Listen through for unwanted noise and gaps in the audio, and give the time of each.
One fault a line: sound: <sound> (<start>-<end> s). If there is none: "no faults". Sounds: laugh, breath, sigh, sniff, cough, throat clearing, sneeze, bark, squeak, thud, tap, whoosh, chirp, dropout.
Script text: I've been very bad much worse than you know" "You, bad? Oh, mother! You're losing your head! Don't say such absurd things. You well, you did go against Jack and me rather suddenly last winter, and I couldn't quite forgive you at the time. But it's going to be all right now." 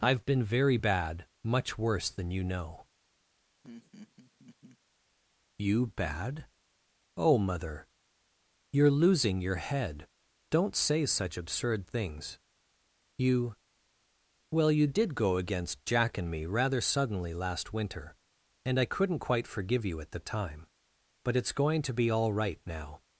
sound: laugh (3.6-4.8 s)